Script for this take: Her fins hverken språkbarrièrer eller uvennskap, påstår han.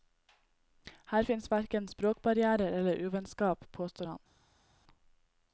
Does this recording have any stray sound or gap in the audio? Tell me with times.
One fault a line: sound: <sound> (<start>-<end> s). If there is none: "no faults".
no faults